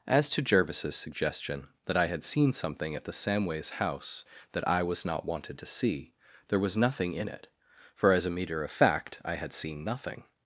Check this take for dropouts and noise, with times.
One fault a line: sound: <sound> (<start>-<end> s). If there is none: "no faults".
no faults